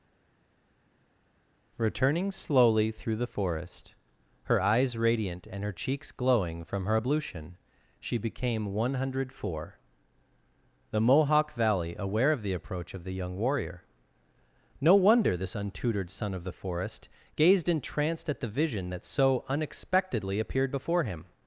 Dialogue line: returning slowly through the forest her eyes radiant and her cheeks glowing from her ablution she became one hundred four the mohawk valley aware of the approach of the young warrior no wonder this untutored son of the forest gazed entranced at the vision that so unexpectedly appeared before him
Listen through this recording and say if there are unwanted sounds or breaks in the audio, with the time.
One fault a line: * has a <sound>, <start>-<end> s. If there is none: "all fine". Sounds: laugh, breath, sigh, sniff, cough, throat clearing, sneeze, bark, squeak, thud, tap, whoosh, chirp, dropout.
all fine